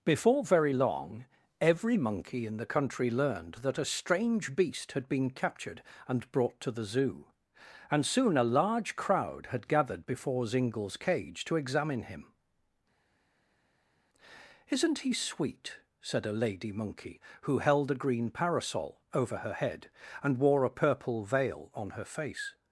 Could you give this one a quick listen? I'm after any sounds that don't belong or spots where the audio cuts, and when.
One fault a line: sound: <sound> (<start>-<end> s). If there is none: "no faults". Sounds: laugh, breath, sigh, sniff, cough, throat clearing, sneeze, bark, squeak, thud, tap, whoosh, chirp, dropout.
no faults